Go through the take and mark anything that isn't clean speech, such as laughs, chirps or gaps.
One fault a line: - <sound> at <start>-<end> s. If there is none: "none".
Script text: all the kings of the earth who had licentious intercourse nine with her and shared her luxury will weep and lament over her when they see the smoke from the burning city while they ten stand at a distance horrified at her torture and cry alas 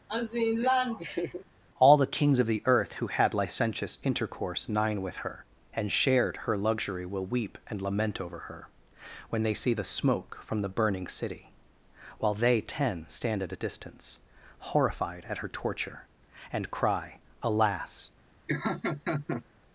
- laugh at 0.1-1.4 s
- laugh at 18.5-19.4 s